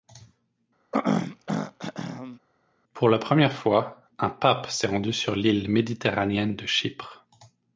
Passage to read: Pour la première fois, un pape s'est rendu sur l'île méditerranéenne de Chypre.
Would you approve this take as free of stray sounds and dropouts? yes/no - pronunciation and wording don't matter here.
no